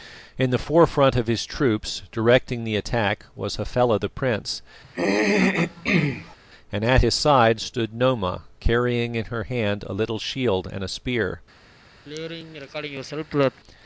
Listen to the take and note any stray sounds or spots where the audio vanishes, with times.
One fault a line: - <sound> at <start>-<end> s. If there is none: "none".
- throat clearing at 4.8-6.4 s
- throat clearing at 12.1-13.6 s